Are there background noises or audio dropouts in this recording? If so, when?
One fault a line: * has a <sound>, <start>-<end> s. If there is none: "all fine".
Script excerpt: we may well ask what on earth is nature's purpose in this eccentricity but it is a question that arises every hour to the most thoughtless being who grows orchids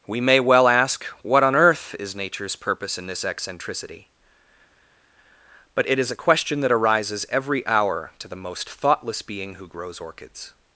all fine